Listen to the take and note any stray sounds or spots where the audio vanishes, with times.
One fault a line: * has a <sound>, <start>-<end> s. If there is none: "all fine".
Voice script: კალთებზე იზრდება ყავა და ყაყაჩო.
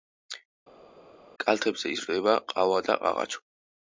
all fine